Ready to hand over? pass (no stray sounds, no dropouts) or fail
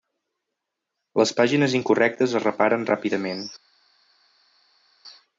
pass